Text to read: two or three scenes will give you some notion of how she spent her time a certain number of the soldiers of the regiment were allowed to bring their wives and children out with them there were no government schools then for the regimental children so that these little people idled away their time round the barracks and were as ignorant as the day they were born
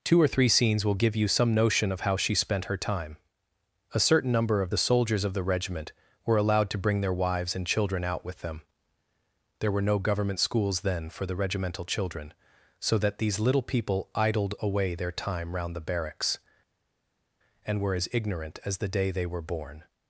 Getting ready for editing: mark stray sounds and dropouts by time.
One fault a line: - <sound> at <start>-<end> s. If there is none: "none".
none